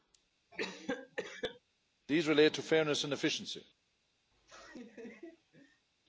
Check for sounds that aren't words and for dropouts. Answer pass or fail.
fail